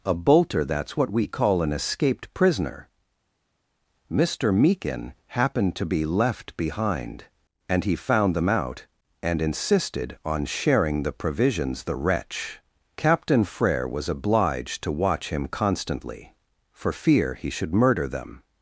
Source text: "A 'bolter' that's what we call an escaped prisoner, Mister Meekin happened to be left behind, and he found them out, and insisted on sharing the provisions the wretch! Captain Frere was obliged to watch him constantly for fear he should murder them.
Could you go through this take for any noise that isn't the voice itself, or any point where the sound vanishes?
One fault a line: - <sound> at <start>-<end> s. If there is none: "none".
none